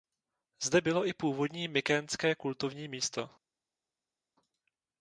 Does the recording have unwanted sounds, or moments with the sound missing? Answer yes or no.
no